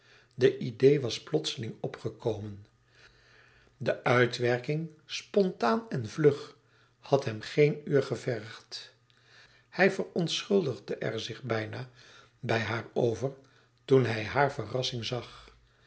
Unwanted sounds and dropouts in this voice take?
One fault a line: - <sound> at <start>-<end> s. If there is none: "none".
none